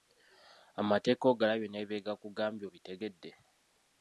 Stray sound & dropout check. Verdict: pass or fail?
pass